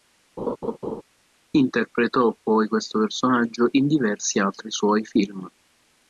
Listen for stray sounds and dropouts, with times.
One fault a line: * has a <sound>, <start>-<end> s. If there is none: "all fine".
* has a laugh, 0.4-1.0 s